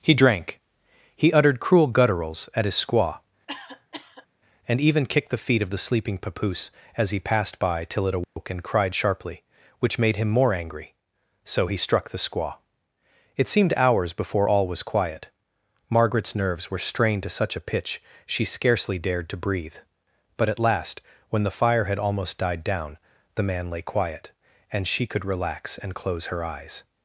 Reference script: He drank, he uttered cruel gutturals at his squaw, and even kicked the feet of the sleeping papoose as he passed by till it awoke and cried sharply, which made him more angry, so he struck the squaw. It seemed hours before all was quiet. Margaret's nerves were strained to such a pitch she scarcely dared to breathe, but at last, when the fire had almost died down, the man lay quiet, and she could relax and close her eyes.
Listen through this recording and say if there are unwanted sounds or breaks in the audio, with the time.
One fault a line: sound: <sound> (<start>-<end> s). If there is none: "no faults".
sound: cough (3.5-4.3 s)
sound: dropout (8.2-8.4 s)